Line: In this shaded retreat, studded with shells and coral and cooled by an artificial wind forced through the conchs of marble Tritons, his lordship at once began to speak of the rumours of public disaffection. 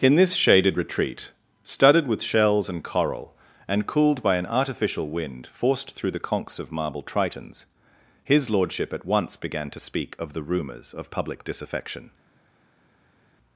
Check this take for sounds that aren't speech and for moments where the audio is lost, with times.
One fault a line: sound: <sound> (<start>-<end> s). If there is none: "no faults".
no faults